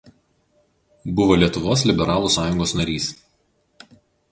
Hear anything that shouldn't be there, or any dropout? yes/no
no